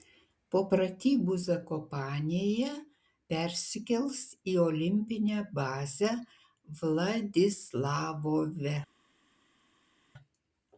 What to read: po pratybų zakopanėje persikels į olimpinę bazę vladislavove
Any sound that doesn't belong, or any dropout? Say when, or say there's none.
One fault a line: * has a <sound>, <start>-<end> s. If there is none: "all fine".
all fine